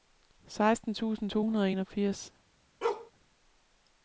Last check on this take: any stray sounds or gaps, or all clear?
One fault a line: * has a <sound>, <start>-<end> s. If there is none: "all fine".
* has a bark, 2.8-3.1 s